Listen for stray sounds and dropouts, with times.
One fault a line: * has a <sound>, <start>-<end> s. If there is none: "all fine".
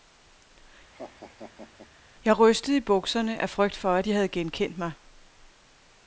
* has a laugh, 0.9-1.9 s